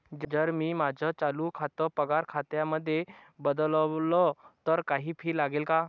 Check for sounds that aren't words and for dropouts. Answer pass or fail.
pass